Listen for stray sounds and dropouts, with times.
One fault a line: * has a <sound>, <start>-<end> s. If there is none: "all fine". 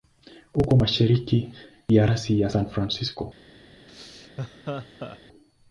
* has a laugh, 3.9-5.2 s